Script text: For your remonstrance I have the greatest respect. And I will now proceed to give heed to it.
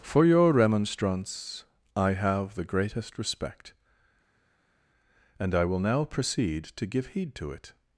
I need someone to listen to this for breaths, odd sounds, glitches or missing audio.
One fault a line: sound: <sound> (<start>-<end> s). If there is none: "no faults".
no faults